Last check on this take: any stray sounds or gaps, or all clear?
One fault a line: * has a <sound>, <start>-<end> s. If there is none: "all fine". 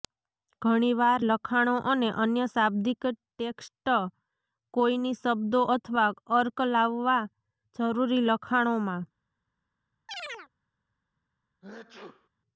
* has a chirp, 10.1-10.5 s
* has a sneeze, 11.6-12.3 s